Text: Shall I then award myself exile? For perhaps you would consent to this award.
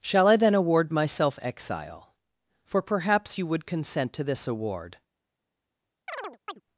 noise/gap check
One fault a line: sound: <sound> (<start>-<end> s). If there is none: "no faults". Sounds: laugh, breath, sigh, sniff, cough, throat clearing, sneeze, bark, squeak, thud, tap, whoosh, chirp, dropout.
sound: chirp (6.1-6.6 s)